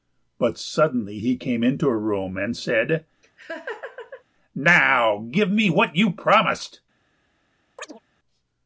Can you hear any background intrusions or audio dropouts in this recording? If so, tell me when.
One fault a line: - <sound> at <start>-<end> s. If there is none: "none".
- laugh at 3.2-4.2 s
- chirp at 7.8-8.0 s